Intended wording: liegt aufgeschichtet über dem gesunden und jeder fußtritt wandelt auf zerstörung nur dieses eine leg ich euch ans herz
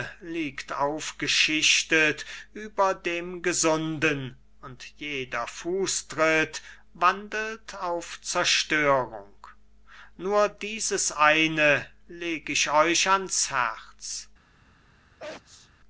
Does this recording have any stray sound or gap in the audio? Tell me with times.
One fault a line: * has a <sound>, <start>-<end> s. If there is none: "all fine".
* has a sneeze, 15.2-15.7 s